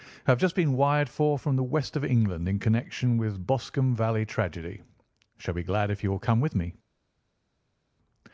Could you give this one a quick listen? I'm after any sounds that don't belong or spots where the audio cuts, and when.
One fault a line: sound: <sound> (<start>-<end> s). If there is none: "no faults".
no faults